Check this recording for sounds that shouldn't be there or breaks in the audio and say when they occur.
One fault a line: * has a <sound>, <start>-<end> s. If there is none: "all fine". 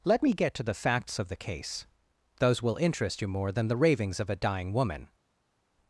all fine